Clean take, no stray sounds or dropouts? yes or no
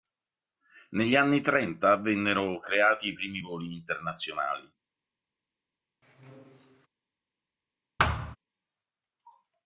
no